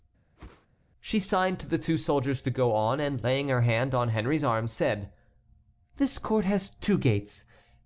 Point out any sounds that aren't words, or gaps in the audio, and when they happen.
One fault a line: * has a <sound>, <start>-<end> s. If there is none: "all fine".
* has a whoosh, 0.4-0.7 s